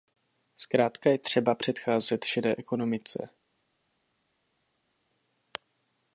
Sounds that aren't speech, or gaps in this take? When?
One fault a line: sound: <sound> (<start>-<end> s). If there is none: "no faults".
no faults